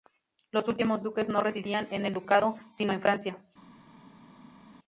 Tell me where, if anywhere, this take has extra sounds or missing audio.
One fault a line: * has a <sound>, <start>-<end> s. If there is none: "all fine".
all fine